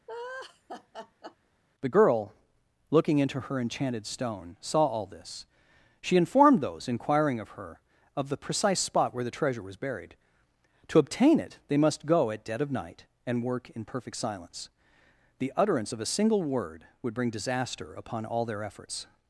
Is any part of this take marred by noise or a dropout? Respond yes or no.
yes